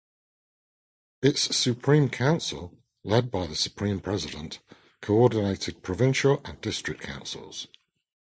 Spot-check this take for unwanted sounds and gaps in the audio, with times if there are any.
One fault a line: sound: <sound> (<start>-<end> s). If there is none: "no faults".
no faults